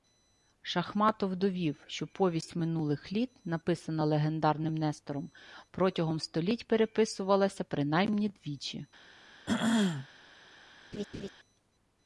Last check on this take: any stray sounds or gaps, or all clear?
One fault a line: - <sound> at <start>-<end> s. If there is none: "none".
- throat clearing at 9.5-10.1 s
- laugh at 10.9-11.3 s